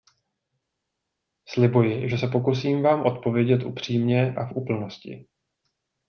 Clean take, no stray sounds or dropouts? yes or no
yes